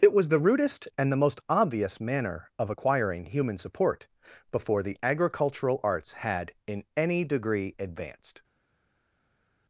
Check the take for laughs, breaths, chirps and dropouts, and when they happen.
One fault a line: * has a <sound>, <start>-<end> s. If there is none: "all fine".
all fine